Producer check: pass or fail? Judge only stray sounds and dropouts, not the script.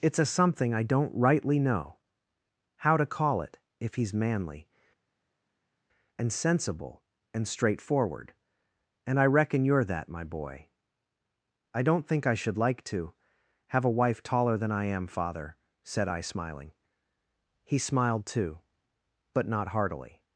pass